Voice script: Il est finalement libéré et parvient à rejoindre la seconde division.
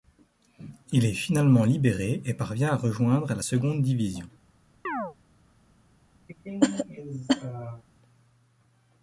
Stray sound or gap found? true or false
true